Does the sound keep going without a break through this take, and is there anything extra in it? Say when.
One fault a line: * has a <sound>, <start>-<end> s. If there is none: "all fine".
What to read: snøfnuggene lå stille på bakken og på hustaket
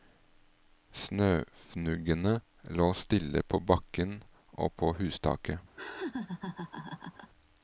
* has a laugh, 5.8-7.3 s